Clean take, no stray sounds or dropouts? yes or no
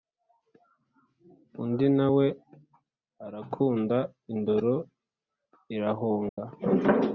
no